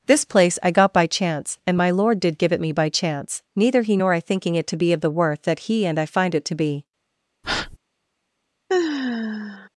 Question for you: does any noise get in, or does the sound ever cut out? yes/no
yes